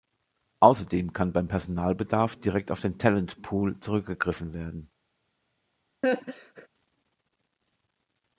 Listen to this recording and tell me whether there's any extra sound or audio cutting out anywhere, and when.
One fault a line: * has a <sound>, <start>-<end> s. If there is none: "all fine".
* has a laugh, 6.0-6.7 s